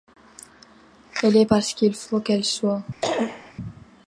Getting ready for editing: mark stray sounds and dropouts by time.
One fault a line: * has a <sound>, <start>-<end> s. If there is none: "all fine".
* has a cough, 3.0-3.5 s